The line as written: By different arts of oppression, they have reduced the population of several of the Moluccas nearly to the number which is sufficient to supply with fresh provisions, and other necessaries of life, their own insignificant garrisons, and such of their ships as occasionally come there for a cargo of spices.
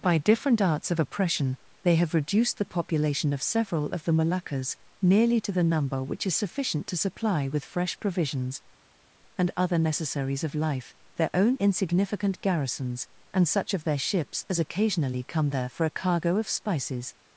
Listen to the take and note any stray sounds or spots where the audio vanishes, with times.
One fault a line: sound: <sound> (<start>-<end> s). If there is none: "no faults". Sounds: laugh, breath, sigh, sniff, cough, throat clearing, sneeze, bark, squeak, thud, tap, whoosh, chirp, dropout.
no faults